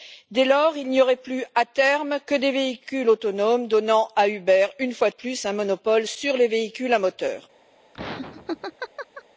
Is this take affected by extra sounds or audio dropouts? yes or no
yes